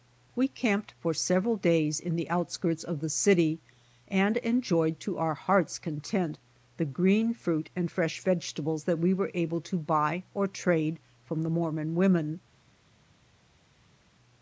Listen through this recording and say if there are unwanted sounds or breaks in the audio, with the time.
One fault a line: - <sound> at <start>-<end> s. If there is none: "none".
none